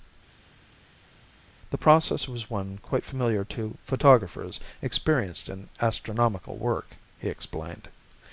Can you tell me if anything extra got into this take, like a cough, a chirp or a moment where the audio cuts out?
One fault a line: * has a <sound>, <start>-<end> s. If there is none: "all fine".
all fine